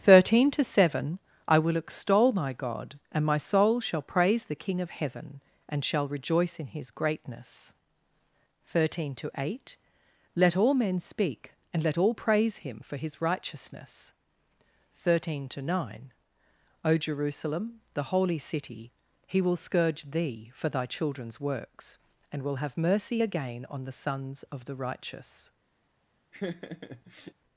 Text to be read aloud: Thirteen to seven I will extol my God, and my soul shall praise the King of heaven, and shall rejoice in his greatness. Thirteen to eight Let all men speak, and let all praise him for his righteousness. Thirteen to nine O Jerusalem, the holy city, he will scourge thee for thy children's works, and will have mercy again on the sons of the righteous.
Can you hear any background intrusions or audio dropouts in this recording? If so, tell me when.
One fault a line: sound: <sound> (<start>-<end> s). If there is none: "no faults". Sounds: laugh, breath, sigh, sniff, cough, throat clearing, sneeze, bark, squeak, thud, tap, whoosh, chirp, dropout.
sound: laugh (26.3-27.3 s)